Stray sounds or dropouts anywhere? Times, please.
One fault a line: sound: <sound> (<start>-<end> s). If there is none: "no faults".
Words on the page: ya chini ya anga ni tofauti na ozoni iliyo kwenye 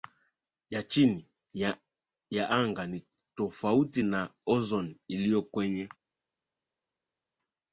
no faults